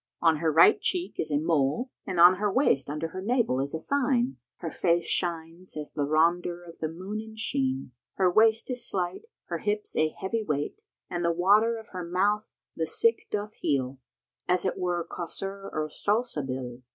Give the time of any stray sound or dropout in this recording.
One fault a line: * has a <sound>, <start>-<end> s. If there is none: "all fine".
all fine